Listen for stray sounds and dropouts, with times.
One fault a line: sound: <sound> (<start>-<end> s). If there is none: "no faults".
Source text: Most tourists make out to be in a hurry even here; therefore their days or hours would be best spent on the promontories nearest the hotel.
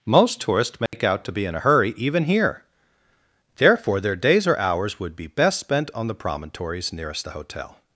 sound: dropout (0.9-0.9 s)